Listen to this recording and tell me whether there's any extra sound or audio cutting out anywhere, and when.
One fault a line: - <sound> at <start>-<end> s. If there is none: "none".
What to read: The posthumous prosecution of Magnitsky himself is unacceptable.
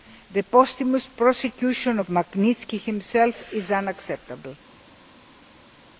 none